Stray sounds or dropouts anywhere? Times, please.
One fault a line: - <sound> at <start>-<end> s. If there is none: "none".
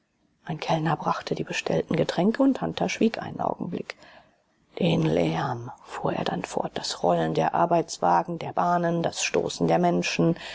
none